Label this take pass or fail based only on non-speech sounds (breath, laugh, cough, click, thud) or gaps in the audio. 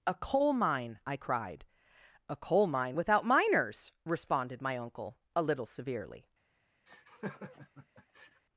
fail